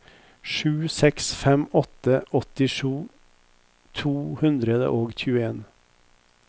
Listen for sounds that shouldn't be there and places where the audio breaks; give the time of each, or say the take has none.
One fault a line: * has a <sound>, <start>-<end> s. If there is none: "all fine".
all fine